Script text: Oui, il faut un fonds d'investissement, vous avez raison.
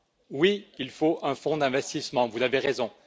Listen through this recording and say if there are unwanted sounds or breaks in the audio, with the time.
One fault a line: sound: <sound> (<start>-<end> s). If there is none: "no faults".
no faults